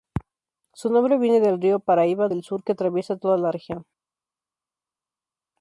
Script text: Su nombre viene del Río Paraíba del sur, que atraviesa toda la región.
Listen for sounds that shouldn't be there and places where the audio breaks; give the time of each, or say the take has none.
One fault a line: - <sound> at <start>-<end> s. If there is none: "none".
none